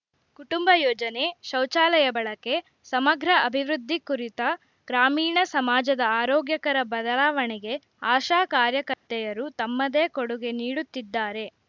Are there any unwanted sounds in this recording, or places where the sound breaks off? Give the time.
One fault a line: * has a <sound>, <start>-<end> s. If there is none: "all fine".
* has a dropout, 8.9-9.1 s